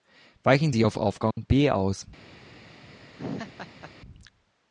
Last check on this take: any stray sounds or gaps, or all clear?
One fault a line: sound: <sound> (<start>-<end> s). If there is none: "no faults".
sound: dropout (1.3-1.4 s)
sound: laugh (3.2-3.9 s)